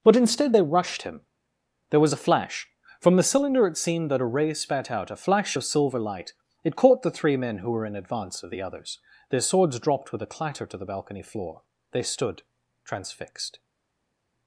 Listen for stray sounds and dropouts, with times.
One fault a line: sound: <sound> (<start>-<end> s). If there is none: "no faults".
no faults